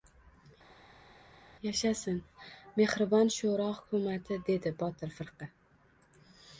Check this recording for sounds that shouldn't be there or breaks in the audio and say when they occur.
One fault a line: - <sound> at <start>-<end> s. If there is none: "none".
none